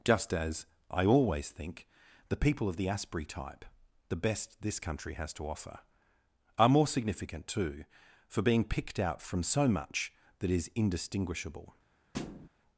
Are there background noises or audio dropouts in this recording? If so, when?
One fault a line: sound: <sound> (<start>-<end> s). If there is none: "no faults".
sound: thud (12.1-12.5 s)